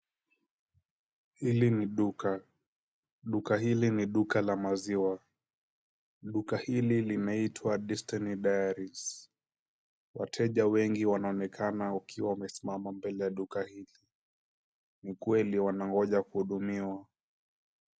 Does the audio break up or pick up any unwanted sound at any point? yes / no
no